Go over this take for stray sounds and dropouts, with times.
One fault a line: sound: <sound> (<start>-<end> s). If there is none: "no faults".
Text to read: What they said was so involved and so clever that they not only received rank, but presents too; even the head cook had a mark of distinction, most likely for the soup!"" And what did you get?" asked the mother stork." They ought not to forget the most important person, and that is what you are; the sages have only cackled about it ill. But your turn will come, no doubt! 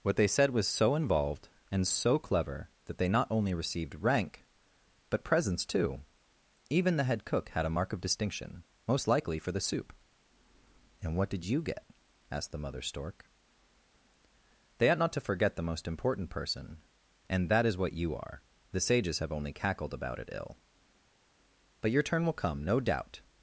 no faults